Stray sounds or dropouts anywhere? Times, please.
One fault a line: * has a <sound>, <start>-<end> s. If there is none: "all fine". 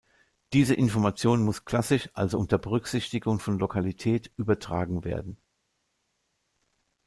all fine